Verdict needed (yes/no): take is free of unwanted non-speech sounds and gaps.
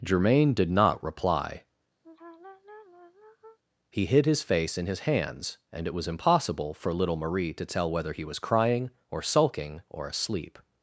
no